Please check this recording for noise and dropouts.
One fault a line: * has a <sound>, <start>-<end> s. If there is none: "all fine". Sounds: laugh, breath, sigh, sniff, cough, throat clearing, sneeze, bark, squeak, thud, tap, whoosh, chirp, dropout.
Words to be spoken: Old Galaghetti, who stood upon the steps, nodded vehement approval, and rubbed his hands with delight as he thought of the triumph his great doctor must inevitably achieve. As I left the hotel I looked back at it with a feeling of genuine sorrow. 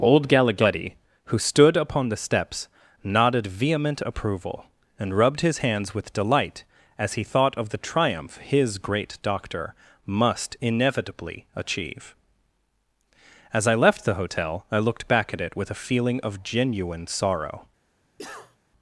* has a cough, 18.2-18.6 s